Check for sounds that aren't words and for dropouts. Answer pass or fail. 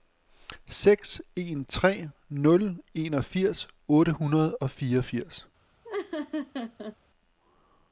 fail